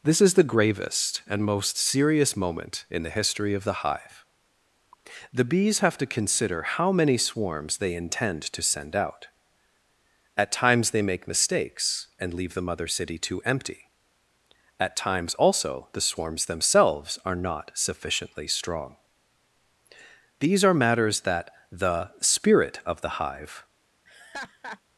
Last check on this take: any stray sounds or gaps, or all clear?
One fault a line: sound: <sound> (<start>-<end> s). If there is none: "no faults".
sound: laugh (24.0-24.8 s)